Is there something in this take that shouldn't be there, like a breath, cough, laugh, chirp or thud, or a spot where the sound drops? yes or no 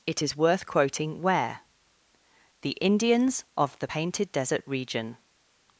no